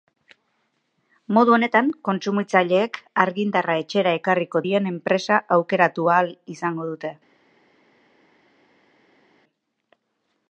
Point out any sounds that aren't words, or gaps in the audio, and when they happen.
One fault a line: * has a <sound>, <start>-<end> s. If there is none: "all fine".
all fine